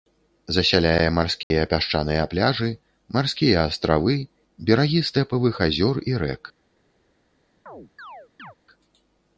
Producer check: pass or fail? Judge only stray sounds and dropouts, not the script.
fail